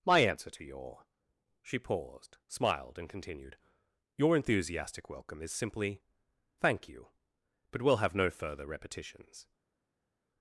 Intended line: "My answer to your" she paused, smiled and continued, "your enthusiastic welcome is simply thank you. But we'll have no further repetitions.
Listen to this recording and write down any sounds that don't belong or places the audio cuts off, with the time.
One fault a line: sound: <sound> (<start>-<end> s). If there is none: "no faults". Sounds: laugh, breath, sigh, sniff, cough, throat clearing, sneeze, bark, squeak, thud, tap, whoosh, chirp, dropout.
no faults